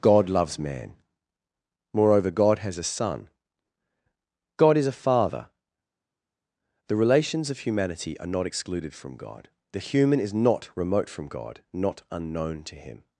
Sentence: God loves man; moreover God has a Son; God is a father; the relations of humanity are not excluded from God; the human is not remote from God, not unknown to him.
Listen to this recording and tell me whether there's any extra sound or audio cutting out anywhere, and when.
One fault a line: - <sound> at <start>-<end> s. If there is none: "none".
none